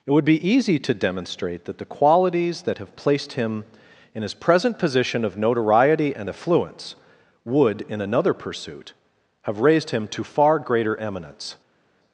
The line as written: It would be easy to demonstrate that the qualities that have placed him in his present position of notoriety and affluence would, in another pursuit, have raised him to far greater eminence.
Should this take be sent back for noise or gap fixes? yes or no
no